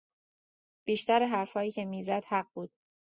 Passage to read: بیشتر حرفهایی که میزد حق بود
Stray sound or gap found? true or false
false